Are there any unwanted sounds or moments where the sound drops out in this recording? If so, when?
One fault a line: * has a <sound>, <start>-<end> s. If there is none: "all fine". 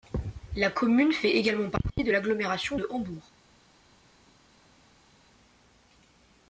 all fine